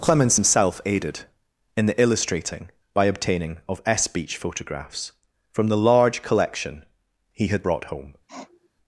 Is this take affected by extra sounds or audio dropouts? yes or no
yes